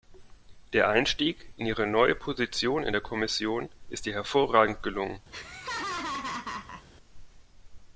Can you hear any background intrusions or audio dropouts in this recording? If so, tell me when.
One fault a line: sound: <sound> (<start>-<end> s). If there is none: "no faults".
sound: laugh (5.3-6.9 s)